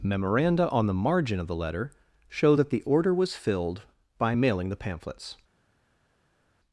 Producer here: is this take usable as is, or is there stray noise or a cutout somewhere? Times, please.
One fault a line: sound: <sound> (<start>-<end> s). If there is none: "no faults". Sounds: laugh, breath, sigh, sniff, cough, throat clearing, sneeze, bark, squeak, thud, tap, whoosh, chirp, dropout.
no faults